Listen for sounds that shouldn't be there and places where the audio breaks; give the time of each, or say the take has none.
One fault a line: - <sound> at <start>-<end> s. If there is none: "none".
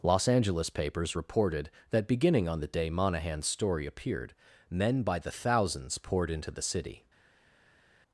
none